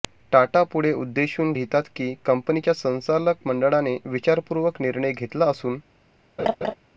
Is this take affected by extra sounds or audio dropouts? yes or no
yes